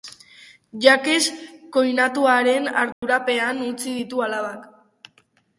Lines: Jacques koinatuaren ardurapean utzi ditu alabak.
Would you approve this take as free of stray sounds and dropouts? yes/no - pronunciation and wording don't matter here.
no